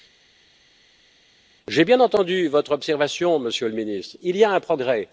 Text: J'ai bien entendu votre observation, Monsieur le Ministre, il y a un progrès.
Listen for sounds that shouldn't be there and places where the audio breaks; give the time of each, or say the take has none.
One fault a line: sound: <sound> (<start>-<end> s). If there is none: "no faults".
no faults